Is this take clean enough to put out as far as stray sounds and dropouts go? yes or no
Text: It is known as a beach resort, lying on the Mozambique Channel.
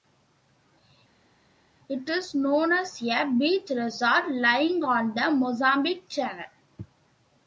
yes